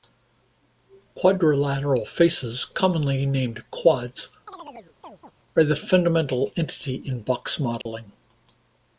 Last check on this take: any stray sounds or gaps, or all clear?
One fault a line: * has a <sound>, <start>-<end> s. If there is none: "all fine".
* has a chirp, 4.5-5.3 s
* has a dropout, 7.8-7.9 s